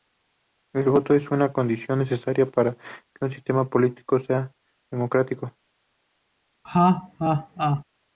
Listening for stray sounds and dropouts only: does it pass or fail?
fail